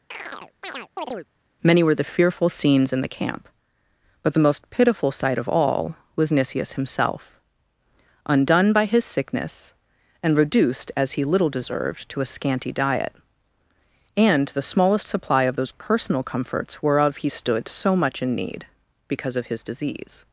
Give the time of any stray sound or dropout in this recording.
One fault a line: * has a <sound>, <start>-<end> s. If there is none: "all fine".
* has a chirp, 0.1-1.3 s